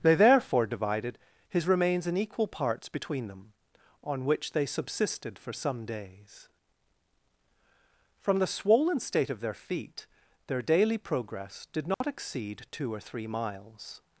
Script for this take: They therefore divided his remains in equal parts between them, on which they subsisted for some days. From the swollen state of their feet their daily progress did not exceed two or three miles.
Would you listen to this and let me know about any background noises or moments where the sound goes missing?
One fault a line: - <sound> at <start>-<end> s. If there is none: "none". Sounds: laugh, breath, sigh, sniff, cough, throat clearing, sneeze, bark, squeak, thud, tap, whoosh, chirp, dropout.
- dropout at 11.9-12.0 s